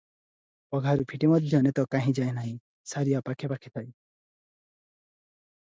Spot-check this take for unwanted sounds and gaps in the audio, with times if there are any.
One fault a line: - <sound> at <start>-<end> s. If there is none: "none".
none